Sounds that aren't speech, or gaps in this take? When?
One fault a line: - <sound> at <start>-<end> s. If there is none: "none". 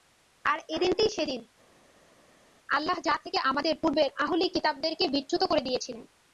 none